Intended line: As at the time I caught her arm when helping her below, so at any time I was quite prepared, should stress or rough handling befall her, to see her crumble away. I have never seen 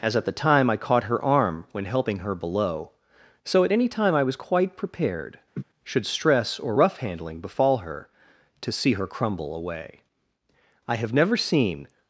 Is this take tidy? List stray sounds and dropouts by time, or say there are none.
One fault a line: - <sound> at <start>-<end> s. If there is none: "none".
- laugh at 5.5-5.6 s